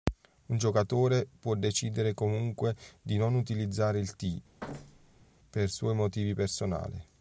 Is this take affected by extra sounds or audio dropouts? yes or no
yes